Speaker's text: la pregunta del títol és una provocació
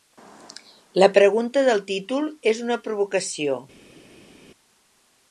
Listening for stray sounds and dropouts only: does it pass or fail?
pass